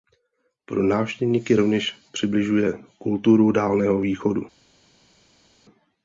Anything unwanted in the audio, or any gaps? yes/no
no